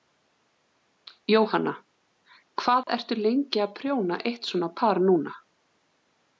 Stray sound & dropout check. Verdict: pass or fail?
fail